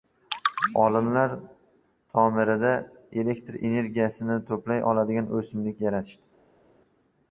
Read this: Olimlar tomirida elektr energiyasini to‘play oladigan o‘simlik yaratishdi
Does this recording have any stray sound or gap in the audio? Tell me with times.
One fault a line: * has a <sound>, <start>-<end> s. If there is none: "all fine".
all fine